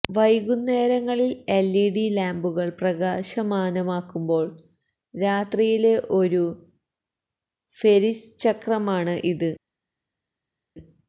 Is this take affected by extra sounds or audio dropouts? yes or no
no